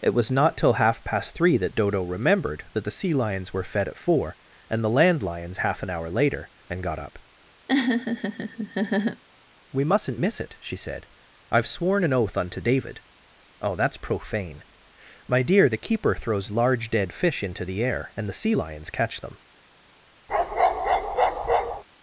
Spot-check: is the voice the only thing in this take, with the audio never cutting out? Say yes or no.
no